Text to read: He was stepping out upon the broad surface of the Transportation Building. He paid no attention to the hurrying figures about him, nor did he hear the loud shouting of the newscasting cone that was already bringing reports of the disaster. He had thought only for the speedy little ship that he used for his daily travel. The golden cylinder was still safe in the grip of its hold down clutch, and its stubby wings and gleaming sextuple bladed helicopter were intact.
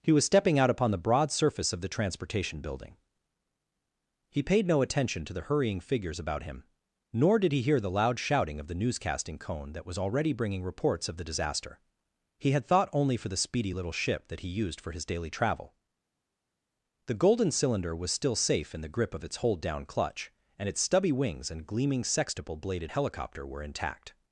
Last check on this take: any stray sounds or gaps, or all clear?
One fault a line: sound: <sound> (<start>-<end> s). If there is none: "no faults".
no faults